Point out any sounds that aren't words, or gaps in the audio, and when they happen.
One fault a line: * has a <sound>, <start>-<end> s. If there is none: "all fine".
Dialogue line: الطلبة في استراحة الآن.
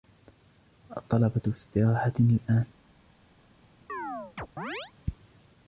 * has a chirp, 3.9-4.9 s